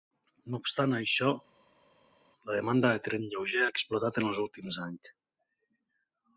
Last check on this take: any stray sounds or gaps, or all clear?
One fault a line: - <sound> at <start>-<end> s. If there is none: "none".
none